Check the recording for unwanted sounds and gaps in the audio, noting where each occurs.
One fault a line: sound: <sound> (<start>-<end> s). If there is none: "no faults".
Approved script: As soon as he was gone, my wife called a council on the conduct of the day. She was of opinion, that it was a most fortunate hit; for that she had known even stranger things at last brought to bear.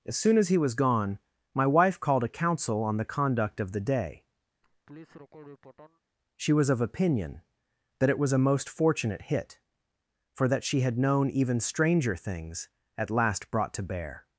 sound: laugh (4.6-6.0 s)